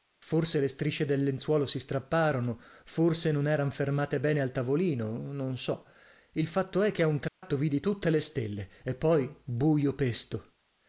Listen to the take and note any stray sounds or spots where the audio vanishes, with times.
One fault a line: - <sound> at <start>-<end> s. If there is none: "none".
- dropout at 7.3-7.4 s